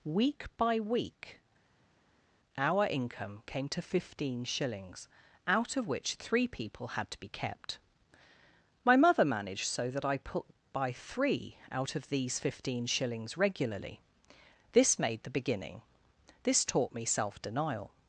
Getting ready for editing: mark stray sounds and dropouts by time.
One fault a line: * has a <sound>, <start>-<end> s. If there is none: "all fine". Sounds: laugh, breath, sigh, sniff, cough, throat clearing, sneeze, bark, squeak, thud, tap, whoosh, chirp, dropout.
all fine